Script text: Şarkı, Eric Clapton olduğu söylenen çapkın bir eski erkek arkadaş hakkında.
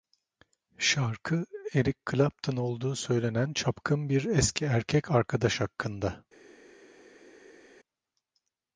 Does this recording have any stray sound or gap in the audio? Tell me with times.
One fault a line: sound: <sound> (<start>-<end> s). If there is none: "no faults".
no faults